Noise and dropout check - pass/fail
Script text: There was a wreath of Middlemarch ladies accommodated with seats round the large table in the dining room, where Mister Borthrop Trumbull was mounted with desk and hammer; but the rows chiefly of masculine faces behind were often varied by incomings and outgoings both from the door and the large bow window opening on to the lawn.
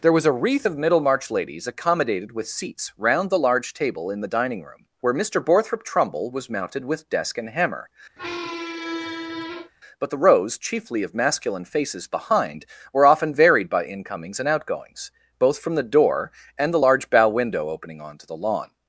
fail